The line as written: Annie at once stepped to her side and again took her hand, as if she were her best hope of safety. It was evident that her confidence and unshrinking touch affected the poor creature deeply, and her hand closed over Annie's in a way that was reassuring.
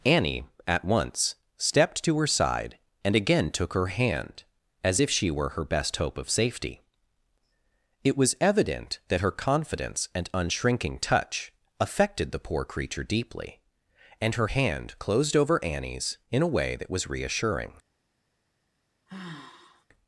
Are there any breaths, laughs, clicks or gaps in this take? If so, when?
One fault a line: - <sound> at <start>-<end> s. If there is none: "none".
- sigh at 19.1-19.9 s